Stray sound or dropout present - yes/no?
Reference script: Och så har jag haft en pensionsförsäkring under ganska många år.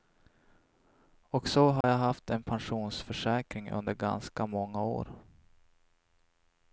yes